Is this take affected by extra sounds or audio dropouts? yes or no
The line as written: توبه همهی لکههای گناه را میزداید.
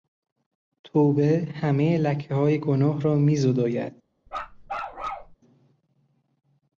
yes